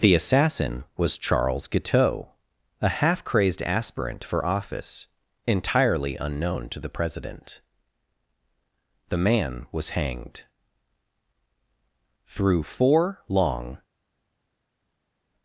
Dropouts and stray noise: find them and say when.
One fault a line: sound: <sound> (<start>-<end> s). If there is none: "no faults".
no faults